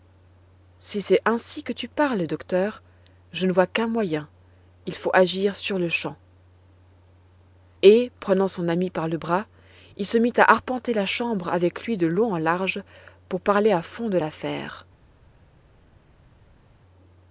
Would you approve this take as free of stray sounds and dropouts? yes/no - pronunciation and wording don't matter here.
yes